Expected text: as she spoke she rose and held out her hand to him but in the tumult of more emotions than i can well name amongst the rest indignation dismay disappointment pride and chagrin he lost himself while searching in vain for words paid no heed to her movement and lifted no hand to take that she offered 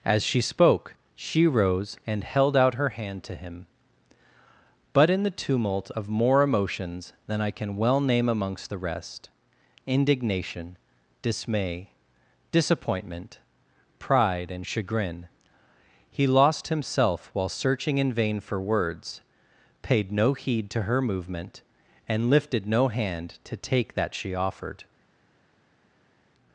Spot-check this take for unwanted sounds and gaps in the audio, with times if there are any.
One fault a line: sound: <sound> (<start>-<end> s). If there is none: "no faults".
no faults